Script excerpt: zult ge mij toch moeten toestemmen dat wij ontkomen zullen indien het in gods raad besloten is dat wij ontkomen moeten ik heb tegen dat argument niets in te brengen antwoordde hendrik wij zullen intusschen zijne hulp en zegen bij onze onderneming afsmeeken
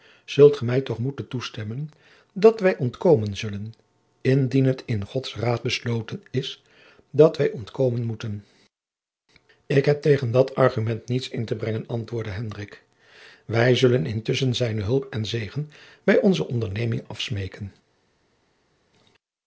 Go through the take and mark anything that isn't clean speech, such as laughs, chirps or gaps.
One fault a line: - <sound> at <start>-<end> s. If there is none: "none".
none